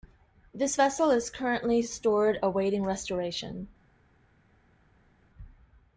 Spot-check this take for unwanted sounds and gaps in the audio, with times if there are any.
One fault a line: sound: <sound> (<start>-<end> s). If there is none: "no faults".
no faults